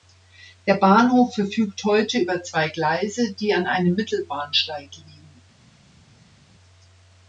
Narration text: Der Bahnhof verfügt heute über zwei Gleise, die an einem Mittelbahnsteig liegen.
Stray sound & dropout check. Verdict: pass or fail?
pass